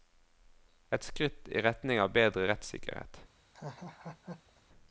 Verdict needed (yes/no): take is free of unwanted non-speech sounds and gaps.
no